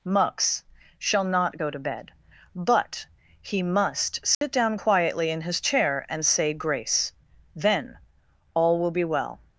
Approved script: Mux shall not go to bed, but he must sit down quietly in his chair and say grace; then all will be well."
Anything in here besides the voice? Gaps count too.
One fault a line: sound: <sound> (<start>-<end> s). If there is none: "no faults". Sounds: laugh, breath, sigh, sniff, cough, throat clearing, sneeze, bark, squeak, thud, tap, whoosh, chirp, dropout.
sound: dropout (4.3-4.4 s)